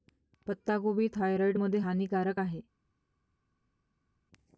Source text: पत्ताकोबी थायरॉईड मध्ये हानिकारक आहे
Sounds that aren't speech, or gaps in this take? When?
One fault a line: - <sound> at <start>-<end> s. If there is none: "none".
none